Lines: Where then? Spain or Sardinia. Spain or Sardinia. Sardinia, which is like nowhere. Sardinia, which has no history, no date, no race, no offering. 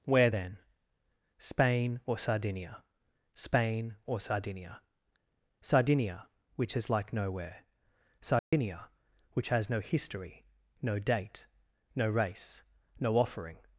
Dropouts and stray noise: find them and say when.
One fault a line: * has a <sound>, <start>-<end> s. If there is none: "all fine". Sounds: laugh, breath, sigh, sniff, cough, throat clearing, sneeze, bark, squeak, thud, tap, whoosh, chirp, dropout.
* has a dropout, 8.4-8.5 s